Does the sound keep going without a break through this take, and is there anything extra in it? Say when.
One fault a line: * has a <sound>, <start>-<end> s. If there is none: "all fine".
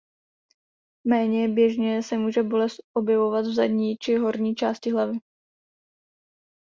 all fine